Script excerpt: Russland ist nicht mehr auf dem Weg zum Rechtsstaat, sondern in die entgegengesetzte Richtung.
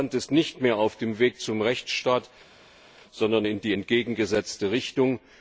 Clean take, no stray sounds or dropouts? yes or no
yes